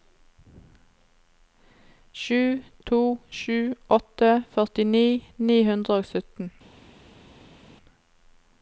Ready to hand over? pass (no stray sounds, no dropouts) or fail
pass